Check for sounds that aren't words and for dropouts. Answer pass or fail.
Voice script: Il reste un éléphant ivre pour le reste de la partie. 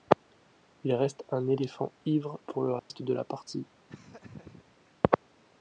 fail